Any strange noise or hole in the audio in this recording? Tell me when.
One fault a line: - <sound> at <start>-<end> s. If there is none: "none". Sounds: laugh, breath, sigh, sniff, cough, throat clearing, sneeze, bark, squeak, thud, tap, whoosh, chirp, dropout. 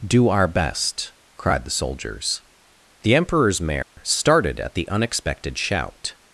- dropout at 3.8-4.0 s